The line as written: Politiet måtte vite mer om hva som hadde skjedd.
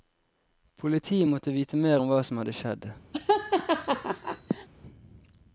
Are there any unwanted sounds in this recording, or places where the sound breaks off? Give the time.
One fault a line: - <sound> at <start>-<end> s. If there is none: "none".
- laugh at 3.1-4.7 s